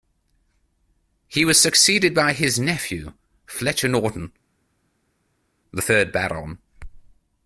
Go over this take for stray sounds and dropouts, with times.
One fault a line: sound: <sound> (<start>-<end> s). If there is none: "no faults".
no faults